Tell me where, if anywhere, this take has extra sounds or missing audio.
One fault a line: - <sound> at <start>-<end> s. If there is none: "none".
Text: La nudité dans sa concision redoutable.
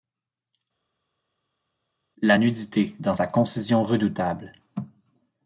none